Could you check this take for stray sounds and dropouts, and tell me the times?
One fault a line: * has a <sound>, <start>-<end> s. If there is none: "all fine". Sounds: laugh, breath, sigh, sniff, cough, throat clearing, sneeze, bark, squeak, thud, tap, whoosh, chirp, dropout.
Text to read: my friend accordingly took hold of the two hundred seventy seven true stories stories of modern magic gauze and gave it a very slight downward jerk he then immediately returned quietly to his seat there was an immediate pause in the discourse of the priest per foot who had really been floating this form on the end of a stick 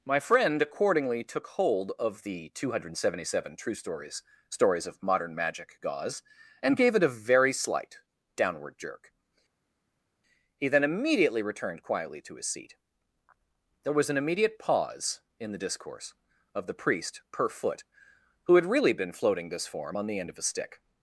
all fine